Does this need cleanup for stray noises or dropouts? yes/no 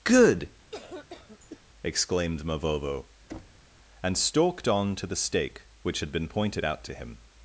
yes